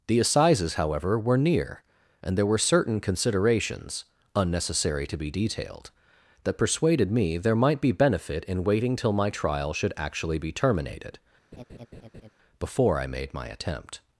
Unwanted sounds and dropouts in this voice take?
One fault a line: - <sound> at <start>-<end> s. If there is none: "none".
- laugh at 11.5-12.3 s